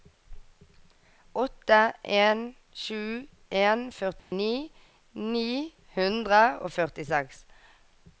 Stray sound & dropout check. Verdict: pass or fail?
fail